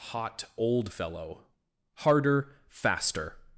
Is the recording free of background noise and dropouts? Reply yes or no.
yes